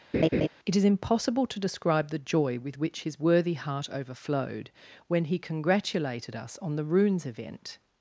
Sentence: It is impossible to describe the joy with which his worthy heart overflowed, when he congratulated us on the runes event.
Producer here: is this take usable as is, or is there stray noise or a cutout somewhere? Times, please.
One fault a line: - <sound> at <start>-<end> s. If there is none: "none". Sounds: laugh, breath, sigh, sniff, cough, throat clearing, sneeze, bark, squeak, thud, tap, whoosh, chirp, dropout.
- laugh at 0.1-0.5 s